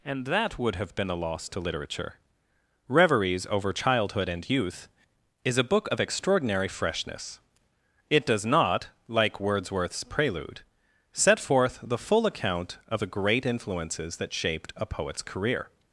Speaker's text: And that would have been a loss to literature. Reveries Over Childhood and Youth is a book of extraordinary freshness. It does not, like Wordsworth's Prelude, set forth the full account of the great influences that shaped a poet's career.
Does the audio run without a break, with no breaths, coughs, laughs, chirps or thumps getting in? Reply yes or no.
yes